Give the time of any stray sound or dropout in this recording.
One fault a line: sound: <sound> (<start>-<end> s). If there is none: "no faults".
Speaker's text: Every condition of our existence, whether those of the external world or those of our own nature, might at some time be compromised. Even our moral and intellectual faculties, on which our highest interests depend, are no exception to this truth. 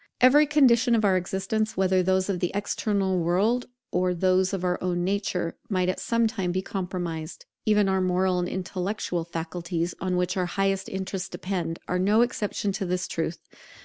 no faults